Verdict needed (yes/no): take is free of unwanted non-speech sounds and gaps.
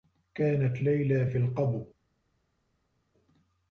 yes